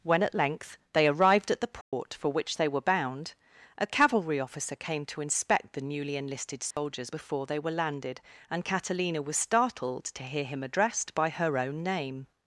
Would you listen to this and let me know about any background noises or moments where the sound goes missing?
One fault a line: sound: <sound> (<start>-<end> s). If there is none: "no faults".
sound: dropout (1.8-1.9 s)
sound: dropout (6.7-6.8 s)